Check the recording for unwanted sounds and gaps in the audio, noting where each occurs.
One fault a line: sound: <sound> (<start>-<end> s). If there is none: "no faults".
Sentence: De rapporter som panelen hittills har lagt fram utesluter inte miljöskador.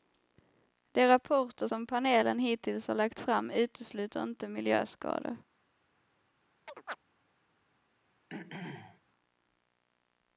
sound: chirp (6.7-7.0 s)
sound: throat clearing (8.3-9.0 s)